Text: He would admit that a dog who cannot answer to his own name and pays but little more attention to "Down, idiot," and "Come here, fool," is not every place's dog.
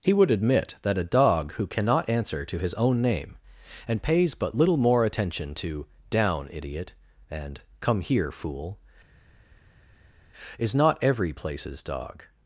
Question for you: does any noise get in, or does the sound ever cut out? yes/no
no